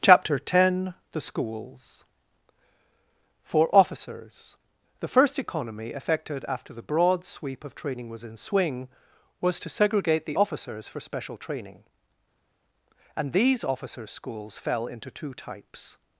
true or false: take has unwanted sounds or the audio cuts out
false